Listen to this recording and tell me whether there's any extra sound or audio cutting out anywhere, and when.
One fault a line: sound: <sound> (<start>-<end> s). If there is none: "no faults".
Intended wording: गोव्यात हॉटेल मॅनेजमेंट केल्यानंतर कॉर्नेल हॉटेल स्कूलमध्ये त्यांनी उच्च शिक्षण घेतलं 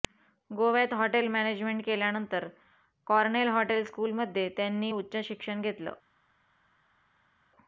no faults